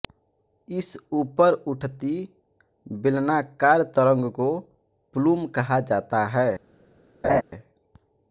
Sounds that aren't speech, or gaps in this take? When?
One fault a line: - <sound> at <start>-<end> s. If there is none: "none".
- laugh at 7.2-7.4 s